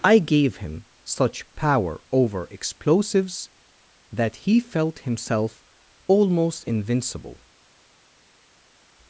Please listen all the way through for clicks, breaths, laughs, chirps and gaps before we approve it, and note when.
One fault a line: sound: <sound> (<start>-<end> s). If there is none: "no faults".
no faults